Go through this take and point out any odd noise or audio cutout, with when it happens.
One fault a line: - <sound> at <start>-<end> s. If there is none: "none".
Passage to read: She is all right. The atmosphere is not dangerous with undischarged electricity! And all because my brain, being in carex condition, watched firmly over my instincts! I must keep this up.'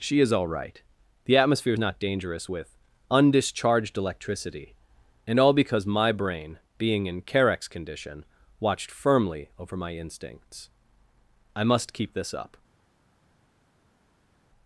none